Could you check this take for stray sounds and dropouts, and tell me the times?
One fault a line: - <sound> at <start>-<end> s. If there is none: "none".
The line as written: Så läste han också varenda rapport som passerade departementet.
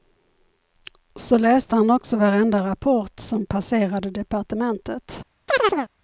- chirp at 5.5-5.9 s